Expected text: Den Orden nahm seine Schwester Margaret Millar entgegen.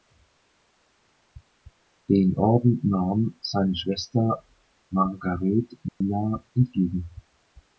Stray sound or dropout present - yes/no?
yes